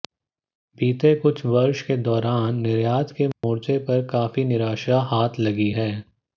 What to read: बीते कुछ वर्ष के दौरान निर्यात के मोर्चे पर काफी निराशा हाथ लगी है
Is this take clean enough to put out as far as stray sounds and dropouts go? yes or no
no